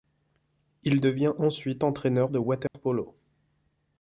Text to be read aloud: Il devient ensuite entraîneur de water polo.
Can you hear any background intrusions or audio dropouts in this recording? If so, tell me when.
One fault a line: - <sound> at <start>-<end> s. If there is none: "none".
- dropout at 2.7-2.7 s